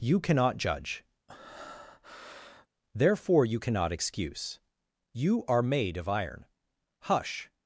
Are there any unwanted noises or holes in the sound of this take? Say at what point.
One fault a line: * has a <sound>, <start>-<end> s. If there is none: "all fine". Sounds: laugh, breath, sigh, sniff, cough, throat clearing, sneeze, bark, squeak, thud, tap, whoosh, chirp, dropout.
* has a breath, 1.3-2.7 s